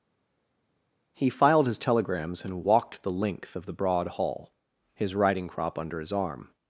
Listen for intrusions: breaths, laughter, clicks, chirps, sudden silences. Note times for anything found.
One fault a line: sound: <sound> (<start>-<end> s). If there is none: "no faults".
no faults